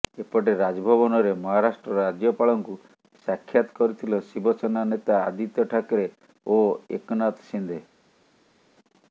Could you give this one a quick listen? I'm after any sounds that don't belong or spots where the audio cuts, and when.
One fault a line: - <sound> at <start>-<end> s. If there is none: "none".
none